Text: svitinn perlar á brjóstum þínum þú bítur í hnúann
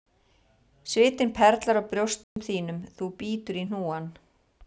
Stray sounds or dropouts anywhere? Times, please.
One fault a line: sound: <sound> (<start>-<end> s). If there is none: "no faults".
sound: dropout (2.2-2.4 s)